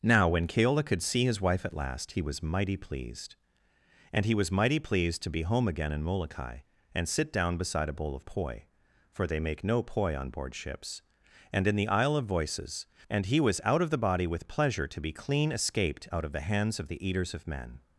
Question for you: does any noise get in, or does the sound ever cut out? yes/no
no